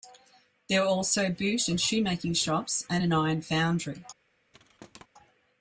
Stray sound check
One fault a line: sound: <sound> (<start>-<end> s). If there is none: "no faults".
sound: thud (4.5-5.1 s)